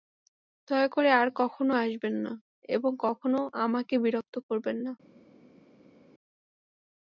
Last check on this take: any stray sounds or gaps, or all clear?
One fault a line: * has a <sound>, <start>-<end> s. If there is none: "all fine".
all fine